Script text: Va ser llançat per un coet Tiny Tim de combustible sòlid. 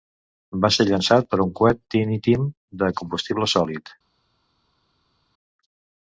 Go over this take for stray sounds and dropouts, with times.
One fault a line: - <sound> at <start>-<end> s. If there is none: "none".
none